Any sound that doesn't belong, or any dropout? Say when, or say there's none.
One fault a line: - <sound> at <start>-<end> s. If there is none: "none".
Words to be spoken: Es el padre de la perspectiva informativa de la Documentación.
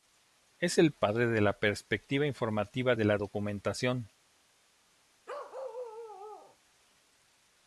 - bark at 5.3-6.6 s